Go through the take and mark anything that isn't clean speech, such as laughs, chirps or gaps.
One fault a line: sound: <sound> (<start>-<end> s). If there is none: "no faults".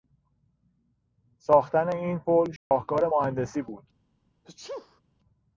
sound: dropout (2.6-2.7 s)
sound: sneeze (4.4-5.0 s)